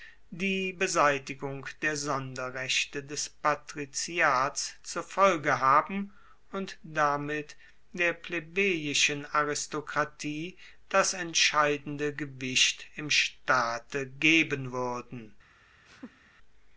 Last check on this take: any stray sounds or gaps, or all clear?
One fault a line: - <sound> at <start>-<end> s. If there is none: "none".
- laugh at 15.9-16.3 s